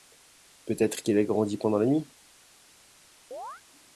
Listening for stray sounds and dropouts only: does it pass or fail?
fail